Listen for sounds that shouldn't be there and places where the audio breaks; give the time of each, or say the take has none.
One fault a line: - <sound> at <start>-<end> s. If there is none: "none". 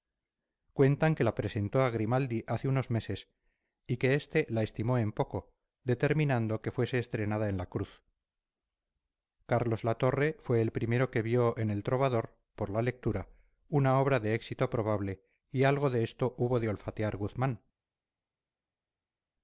none